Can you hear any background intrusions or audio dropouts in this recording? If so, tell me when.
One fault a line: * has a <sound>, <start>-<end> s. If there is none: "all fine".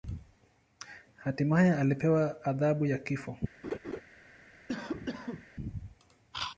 * has a laugh, 3.6-4.0 s
* has a cough, 4.7-5.5 s